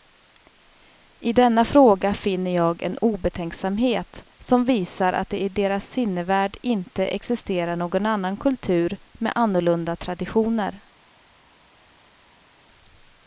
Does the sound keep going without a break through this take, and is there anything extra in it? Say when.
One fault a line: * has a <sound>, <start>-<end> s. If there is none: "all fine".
all fine